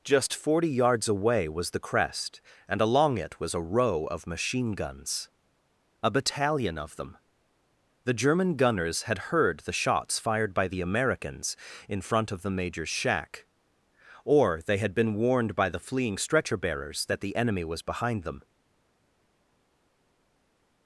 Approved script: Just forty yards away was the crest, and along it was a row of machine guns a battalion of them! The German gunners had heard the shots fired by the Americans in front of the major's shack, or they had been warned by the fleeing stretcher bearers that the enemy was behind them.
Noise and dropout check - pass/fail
pass